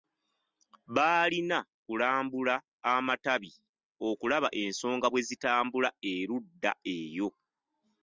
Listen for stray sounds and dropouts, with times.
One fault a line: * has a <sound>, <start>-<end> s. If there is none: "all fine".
all fine